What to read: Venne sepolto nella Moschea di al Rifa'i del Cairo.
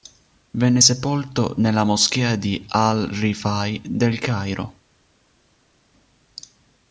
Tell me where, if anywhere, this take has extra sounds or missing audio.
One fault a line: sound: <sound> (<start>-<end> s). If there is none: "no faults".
no faults